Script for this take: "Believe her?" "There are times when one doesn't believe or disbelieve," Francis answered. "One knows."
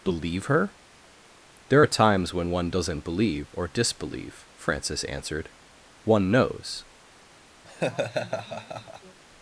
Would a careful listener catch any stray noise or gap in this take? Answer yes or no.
yes